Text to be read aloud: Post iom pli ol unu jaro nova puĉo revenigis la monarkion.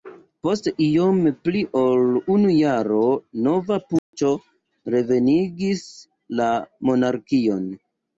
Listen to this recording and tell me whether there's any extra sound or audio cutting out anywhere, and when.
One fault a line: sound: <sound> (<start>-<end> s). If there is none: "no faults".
sound: dropout (4.0-4.1 s)